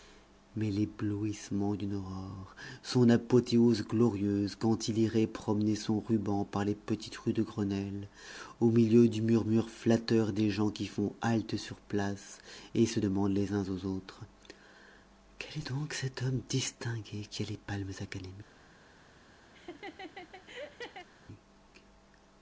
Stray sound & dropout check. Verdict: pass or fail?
fail